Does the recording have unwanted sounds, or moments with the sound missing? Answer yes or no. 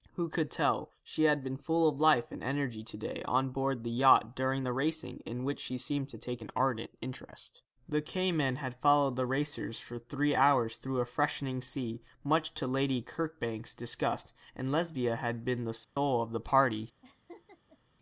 yes